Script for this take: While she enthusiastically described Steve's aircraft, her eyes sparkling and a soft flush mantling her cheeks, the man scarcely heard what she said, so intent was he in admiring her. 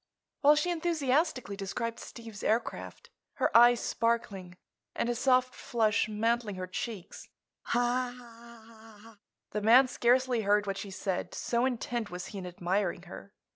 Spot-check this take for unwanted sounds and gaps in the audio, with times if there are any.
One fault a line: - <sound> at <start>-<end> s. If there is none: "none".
- laugh at 7.6-9.2 s